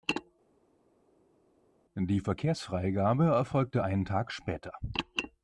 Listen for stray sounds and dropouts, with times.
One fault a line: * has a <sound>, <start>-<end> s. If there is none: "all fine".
all fine